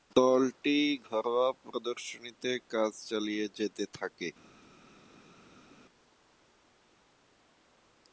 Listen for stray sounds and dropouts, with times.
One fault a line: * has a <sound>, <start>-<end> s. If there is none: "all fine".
all fine